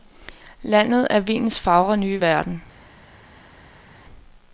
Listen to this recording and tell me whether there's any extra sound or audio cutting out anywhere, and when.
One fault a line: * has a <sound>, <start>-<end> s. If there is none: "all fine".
all fine